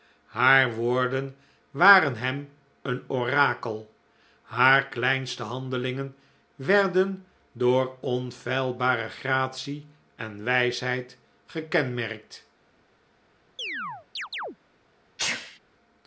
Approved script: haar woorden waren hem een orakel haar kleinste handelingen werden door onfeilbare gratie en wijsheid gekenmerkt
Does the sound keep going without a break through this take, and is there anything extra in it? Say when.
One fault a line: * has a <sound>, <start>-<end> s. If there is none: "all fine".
* has a chirp, 13.6-14.6 s
* has a sneeze, 15.2-15.6 s